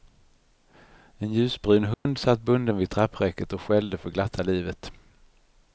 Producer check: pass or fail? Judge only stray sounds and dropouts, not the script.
fail